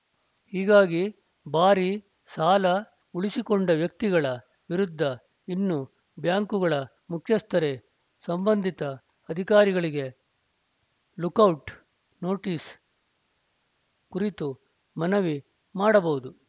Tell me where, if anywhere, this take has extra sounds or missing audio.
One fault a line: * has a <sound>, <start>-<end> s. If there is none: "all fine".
all fine